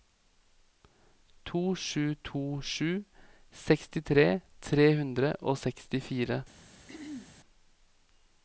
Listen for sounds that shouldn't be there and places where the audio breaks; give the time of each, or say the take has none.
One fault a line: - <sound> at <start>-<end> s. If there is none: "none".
- throat clearing at 6.9-7.4 s